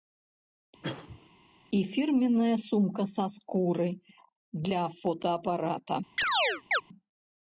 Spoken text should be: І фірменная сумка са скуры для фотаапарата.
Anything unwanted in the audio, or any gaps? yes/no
yes